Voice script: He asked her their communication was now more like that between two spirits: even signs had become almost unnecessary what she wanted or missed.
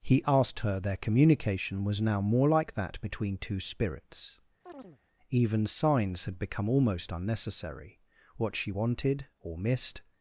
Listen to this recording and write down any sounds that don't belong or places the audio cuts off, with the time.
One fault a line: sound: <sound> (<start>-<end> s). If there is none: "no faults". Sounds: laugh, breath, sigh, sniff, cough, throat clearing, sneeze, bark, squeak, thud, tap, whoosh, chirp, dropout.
sound: chirp (4.6-5.0 s)